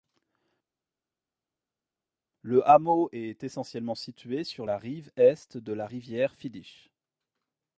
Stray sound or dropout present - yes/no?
no